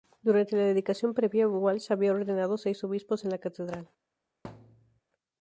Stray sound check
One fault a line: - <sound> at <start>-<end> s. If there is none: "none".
- thud at 4.4-5.0 s